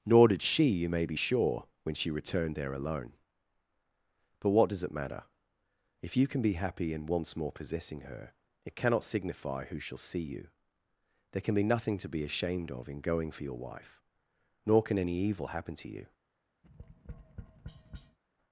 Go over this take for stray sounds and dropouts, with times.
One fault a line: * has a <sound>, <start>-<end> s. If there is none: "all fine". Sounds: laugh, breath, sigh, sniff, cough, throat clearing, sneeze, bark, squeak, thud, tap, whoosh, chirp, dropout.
* has a tap, 16.6-18.2 s